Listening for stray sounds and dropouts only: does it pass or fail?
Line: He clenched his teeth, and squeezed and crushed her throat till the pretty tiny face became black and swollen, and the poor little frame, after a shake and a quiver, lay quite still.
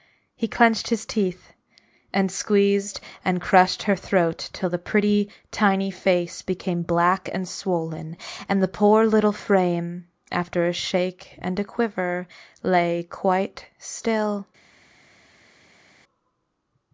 pass